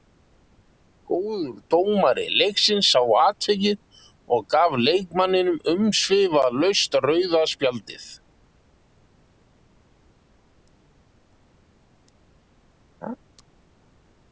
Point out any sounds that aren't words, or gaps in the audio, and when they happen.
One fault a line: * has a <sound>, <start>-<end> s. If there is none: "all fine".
all fine